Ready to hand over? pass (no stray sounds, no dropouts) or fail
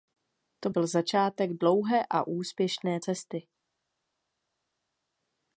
pass